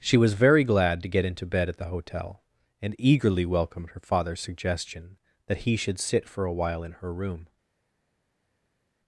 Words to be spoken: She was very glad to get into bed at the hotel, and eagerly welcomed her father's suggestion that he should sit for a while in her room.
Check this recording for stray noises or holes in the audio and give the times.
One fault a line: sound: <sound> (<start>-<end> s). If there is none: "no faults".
no faults